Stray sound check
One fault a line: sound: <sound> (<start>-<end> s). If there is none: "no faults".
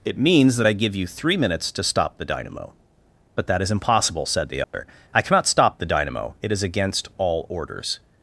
sound: dropout (4.6-4.7 s)